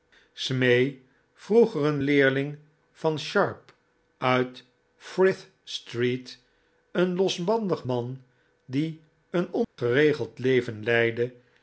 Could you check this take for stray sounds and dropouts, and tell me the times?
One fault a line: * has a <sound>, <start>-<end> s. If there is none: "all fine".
* has a dropout, 9.6-9.8 s